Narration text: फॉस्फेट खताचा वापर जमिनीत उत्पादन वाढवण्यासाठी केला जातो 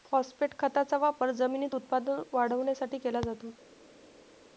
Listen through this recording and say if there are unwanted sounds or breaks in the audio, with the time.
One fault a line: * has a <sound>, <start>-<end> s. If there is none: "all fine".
all fine